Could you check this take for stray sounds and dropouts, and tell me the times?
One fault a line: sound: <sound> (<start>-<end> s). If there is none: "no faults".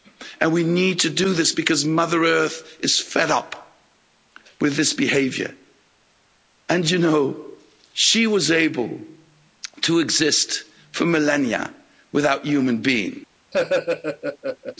sound: laugh (13.5-14.8 s)